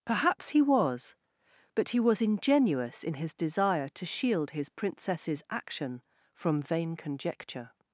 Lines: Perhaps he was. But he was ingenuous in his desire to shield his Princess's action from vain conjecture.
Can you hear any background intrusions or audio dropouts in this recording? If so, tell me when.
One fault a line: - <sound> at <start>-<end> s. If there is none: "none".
none